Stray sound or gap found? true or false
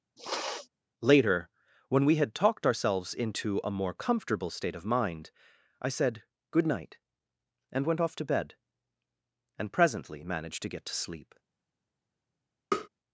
true